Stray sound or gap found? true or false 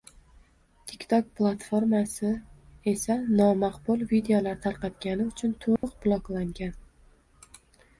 true